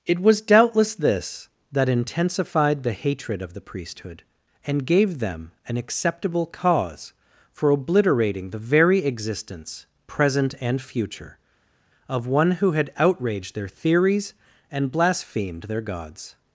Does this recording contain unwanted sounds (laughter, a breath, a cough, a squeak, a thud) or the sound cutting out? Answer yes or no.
no